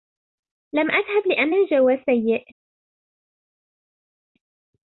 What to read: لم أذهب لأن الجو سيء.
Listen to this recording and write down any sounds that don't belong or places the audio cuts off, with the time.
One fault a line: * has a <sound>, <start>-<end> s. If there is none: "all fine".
all fine